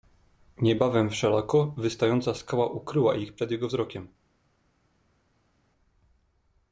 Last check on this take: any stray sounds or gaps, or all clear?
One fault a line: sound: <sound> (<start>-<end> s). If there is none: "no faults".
no faults